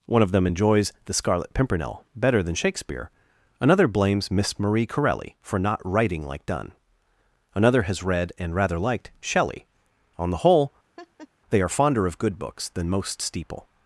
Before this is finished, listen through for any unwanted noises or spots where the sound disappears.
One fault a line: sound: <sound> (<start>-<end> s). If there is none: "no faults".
sound: laugh (11.0-11.3 s)